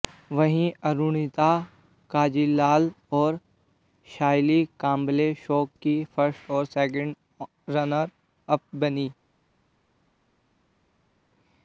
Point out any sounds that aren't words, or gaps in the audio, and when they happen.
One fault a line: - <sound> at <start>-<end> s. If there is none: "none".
none